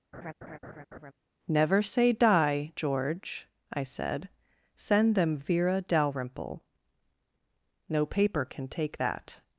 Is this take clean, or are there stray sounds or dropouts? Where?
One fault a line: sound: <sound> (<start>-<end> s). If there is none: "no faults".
sound: laugh (0.1-1.1 s)